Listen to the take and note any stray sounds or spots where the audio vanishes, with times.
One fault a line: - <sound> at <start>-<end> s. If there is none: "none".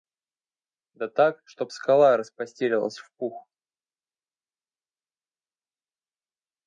none